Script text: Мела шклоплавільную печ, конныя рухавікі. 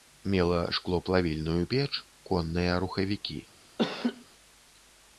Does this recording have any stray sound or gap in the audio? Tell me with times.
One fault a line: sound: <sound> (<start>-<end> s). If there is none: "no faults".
sound: laugh (3.8-4.2 s)